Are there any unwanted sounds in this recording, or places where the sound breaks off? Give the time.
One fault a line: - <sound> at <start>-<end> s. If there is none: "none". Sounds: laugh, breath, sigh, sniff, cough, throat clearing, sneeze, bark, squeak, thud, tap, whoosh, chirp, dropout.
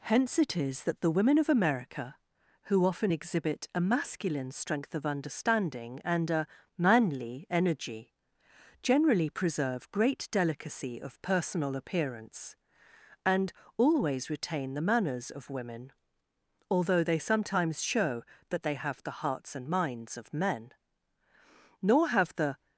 none